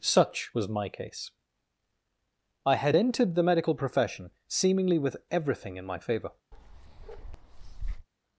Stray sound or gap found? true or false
true